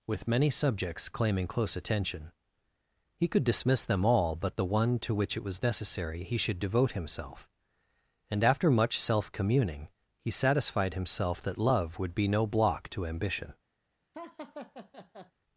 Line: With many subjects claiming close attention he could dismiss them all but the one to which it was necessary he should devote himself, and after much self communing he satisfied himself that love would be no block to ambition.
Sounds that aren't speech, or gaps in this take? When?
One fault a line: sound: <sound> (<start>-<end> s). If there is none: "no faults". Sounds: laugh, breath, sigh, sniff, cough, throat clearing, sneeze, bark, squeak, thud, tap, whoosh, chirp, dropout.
sound: laugh (14.1-15.3 s)